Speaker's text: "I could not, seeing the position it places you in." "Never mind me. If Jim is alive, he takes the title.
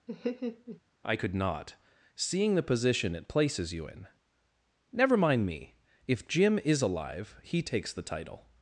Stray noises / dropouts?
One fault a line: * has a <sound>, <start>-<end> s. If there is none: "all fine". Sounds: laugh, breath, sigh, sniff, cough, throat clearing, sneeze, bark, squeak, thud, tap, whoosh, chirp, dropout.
* has a laugh, 0.1-0.8 s